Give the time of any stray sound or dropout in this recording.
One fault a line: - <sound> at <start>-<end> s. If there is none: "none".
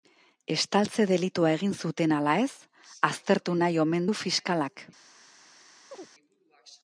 - chirp at 5.9-6.1 s